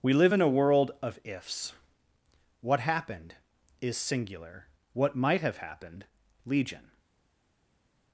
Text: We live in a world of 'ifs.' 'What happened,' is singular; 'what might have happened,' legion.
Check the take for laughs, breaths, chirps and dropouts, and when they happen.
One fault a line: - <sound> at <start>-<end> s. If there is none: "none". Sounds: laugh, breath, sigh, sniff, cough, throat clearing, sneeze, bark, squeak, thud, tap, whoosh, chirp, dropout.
none